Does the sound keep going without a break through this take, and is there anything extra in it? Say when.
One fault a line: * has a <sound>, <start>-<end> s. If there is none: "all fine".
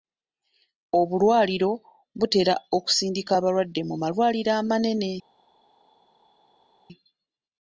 all fine